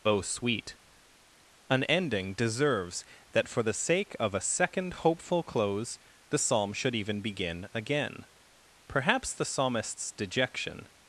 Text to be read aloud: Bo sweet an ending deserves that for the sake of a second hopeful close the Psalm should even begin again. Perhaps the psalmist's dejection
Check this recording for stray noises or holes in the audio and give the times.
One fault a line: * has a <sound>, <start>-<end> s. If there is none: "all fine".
all fine